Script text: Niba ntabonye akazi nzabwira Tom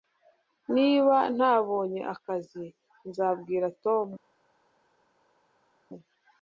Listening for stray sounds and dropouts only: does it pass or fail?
pass